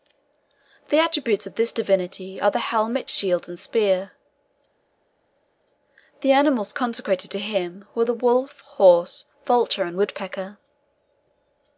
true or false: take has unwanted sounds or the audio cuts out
false